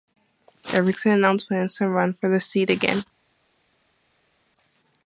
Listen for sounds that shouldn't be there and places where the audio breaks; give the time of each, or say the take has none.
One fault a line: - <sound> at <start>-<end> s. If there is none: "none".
none